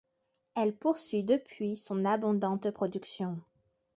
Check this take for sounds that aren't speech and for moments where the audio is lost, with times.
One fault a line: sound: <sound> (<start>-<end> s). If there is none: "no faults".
no faults